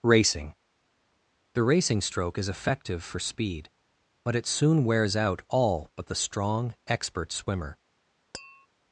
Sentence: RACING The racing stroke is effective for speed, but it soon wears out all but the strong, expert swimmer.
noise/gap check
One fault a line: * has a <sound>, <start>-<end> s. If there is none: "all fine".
* has a tap, 8.3-8.7 s